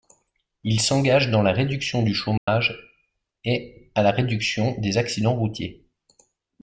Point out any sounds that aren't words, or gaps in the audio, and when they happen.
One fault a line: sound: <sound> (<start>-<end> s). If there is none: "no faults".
sound: dropout (2.4-2.5 s)